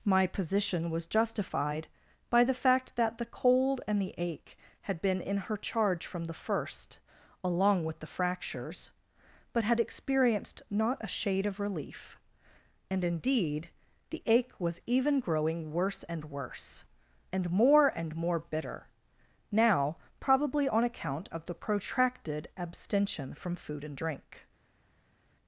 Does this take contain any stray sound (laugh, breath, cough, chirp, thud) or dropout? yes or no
no